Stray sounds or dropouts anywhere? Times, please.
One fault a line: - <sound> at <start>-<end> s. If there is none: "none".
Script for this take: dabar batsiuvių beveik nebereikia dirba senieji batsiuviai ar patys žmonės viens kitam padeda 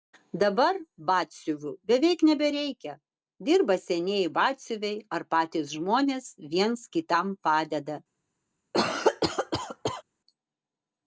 - cough at 8.7-10.0 s